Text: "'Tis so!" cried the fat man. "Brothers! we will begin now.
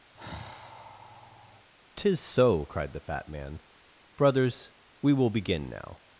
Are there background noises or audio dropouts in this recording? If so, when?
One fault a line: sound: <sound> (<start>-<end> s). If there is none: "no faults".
sound: sigh (0.2-1.7 s)